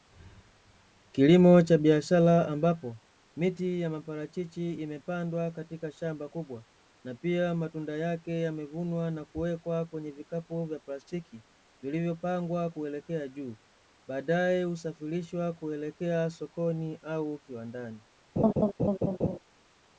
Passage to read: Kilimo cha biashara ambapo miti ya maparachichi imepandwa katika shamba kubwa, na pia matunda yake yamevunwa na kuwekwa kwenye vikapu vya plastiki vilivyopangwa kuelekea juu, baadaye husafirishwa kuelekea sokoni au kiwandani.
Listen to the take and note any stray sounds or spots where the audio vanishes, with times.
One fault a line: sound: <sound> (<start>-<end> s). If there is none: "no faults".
sound: laugh (18.4-19.4 s)